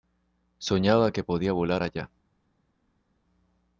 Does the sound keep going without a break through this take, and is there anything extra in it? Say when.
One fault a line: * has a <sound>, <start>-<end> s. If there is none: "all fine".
all fine